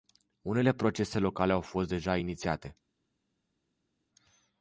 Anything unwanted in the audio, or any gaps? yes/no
no